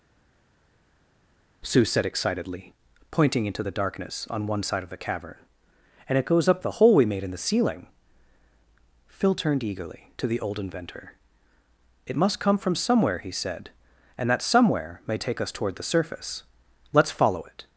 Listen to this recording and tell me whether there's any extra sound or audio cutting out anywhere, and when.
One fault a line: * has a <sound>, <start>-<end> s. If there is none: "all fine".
all fine